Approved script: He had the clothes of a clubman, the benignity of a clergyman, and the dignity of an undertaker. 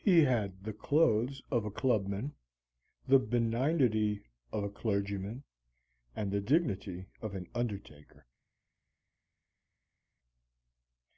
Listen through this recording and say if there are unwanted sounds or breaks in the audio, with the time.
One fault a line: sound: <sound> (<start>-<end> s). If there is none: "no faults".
no faults